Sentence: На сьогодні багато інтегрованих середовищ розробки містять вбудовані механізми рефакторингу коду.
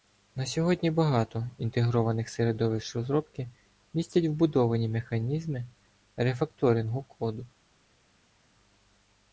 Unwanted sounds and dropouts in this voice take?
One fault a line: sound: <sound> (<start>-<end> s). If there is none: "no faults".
no faults